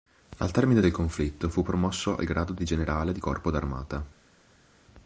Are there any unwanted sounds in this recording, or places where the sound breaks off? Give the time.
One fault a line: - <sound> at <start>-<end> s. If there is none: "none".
none